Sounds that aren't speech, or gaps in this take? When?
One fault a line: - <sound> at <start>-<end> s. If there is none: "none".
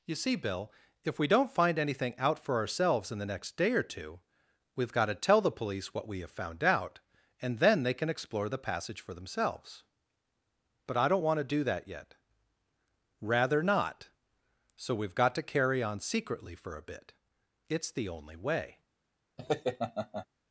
- laugh at 19.4-20.3 s